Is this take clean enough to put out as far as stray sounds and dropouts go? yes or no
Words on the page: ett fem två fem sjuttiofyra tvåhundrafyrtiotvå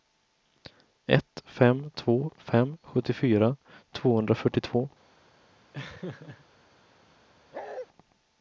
no